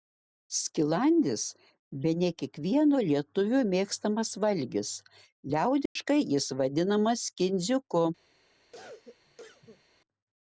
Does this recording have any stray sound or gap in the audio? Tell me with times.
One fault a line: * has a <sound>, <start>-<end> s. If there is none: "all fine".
* has a dropout, 5.9-6.0 s
* has a cough, 8.7-9.8 s